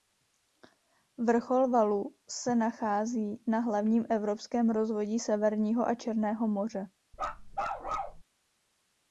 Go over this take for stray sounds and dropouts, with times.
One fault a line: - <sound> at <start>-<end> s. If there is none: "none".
- bark at 7.1-8.2 s